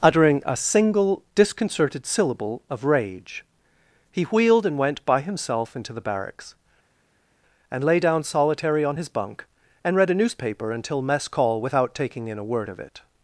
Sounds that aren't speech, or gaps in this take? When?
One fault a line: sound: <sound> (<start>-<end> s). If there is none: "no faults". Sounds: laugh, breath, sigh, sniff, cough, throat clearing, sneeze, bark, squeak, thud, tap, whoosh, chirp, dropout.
no faults